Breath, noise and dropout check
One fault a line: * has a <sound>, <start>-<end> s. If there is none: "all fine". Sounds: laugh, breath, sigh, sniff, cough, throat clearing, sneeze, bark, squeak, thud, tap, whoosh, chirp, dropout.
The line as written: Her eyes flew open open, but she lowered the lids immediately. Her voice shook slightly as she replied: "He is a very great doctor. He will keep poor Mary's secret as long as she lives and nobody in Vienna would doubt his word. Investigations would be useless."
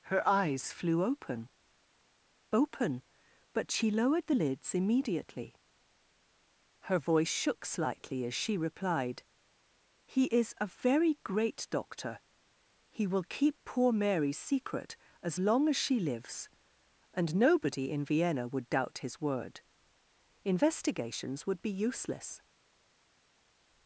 all fine